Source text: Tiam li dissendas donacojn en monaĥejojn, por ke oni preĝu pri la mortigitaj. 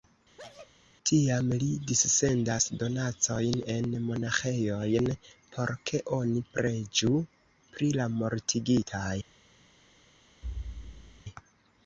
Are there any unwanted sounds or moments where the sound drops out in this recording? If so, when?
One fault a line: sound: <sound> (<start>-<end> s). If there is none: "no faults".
sound: sneeze (0.4-0.7 s)
sound: thud (10.4-11.2 s)